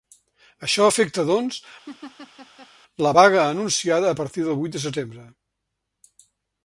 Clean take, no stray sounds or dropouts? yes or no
no